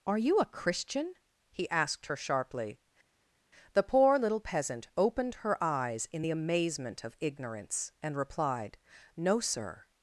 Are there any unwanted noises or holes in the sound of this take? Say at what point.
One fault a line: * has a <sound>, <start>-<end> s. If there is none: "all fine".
all fine